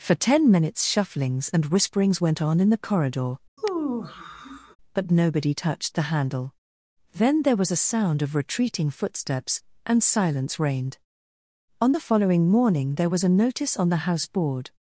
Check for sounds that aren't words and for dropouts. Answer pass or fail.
fail